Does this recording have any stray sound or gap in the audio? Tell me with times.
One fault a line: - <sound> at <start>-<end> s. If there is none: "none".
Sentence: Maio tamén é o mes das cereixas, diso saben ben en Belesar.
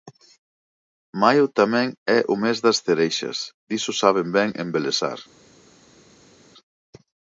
none